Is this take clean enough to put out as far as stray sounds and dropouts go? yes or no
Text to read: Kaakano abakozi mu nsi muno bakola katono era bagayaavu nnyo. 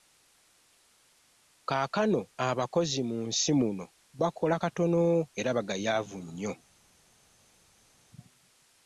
yes